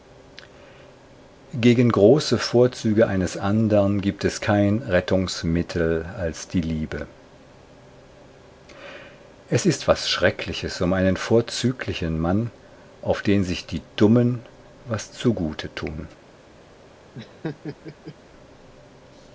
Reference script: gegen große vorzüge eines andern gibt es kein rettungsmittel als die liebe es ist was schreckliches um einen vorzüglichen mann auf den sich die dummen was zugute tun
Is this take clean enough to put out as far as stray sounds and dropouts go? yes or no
no